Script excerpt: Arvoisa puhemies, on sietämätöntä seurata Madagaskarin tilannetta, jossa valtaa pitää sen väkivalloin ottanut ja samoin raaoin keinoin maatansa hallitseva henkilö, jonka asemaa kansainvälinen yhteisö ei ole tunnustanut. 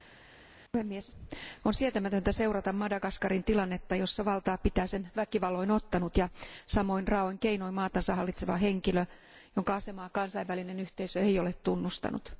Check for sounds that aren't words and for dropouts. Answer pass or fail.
pass